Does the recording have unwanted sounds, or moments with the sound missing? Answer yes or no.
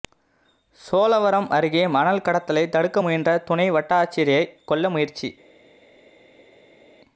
no